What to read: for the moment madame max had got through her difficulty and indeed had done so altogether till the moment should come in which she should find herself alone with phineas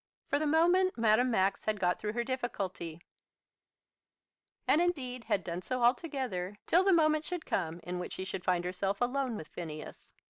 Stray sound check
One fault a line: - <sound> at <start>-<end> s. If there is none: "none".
none